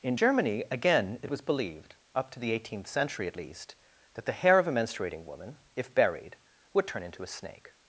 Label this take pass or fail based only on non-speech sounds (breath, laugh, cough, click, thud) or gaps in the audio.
pass